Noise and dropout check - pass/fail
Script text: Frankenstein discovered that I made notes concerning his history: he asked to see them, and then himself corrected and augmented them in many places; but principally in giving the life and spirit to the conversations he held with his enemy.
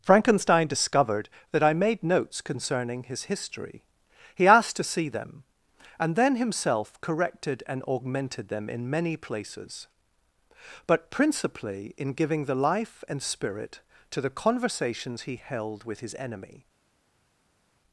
pass